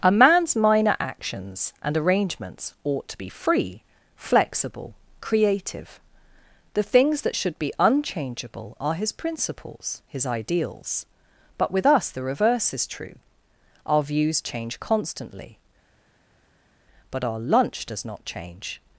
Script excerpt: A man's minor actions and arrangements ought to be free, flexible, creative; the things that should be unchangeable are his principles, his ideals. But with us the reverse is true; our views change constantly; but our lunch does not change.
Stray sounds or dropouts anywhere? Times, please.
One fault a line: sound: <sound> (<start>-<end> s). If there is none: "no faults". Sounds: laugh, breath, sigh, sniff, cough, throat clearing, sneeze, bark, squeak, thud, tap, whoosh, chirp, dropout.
no faults